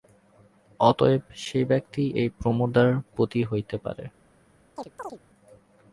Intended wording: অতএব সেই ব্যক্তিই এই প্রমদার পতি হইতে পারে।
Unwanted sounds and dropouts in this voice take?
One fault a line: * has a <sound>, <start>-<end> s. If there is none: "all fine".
* has a chirp, 4.8-5.2 s